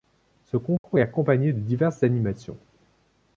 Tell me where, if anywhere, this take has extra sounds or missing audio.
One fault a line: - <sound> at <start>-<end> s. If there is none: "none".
- dropout at 0.8-0.8 s